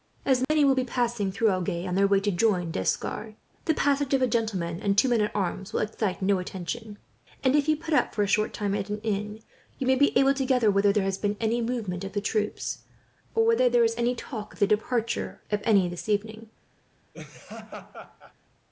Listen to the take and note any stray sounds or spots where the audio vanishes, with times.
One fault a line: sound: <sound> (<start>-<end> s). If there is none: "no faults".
sound: dropout (0.4-0.5 s)
sound: laugh (17.1-18.3 s)